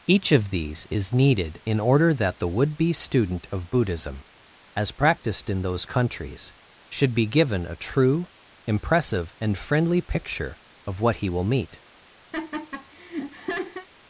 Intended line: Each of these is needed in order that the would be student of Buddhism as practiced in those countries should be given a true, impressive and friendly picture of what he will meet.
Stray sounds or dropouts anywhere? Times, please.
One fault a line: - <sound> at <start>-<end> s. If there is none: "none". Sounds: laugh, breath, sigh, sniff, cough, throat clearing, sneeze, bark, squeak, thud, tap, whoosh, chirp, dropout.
- laugh at 12.3-13.9 s